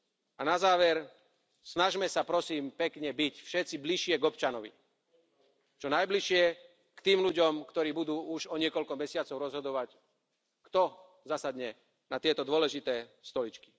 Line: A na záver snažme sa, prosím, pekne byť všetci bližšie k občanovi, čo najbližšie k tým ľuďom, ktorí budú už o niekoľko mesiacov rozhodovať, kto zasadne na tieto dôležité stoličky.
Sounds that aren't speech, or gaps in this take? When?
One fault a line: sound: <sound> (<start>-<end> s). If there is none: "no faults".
no faults